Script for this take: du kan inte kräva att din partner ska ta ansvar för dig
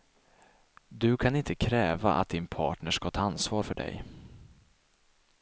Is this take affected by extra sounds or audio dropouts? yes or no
no